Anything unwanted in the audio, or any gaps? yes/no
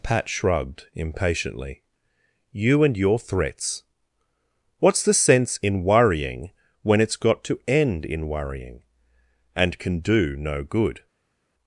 no